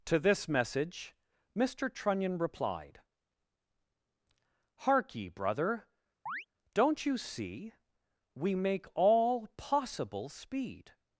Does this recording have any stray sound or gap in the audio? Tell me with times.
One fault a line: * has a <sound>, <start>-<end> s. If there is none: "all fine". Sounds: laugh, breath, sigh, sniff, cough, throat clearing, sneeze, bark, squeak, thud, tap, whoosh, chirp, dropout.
* has a chirp, 6.3-6.5 s